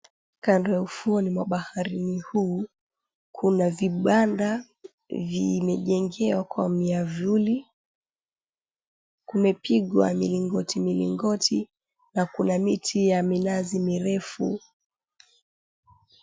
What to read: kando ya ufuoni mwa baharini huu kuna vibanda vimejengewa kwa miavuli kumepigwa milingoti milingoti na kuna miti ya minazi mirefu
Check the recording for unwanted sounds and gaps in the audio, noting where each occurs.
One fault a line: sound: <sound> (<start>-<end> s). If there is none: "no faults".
no faults